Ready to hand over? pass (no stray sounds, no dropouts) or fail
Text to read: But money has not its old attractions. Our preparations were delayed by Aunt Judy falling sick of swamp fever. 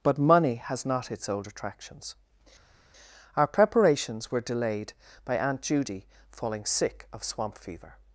pass